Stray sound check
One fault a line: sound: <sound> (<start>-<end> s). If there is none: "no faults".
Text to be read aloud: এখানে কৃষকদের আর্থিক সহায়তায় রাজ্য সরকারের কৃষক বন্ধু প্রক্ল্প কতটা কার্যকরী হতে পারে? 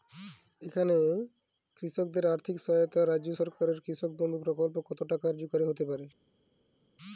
no faults